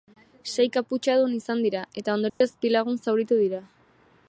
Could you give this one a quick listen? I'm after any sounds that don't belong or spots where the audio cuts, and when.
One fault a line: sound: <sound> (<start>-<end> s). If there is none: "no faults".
sound: dropout (2.3-2.4 s)